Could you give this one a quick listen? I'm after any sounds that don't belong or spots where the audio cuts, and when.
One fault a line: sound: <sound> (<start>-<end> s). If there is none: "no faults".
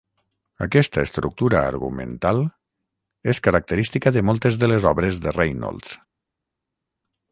no faults